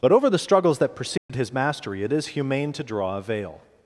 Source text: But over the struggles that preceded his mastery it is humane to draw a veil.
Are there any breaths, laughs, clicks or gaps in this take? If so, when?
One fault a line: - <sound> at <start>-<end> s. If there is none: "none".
- dropout at 1.2-1.3 s